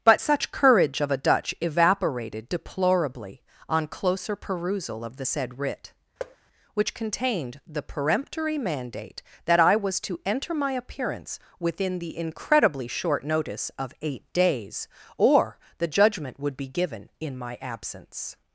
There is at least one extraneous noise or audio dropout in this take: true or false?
true